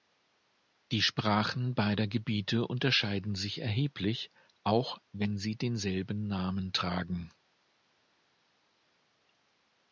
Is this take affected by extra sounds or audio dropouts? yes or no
no